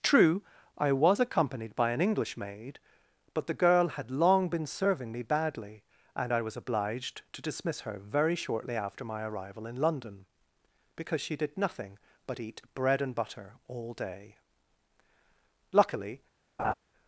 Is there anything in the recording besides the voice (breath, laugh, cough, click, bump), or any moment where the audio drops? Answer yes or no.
yes